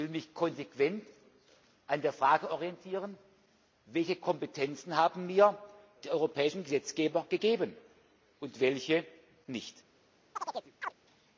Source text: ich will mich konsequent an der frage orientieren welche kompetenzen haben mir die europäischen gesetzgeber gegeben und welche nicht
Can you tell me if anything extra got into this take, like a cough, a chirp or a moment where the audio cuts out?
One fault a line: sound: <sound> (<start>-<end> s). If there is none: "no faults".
sound: chirp (10.4-10.9 s)